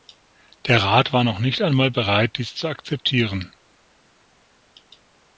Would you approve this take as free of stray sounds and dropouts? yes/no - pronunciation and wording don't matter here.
yes